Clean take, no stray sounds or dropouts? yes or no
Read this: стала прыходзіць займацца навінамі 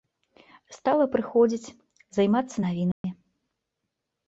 no